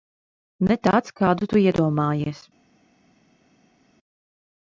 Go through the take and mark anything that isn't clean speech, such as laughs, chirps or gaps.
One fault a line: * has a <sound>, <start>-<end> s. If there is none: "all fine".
all fine